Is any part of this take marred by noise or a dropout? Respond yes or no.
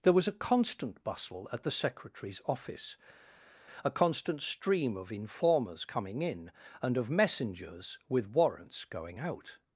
no